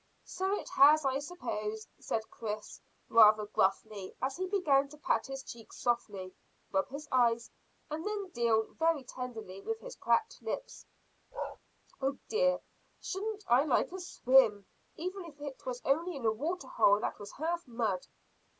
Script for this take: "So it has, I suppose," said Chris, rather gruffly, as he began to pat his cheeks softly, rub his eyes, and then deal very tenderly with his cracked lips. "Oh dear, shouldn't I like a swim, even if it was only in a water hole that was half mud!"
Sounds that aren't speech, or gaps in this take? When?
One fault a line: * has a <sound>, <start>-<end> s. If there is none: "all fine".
* has a bark, 11.3-11.6 s